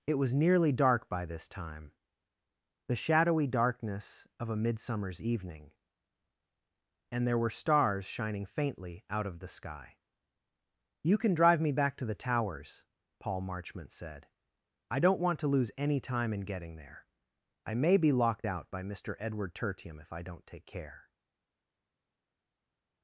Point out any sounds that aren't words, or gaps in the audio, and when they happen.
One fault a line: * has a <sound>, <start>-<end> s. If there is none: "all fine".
all fine